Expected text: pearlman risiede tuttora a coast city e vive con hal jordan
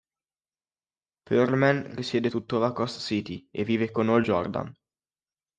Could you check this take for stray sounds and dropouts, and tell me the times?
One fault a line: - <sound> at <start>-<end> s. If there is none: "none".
none